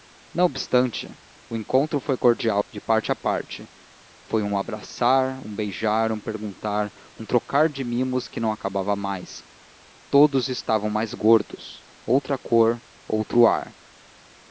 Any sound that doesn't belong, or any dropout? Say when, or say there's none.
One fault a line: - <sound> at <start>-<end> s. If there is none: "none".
none